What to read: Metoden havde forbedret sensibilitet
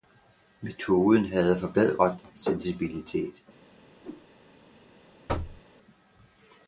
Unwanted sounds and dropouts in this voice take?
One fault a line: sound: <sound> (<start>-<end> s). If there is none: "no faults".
sound: whoosh (4.0-4.3 s)
sound: thud (5.3-5.6 s)